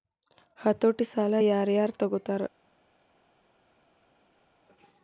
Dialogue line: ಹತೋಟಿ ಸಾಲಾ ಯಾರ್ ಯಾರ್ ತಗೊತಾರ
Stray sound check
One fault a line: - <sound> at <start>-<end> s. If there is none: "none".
none